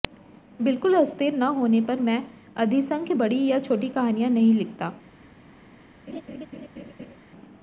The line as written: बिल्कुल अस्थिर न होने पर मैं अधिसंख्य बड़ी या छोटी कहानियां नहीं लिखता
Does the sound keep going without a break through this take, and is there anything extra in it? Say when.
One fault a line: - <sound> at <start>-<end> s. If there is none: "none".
- laugh at 6.1-7.2 s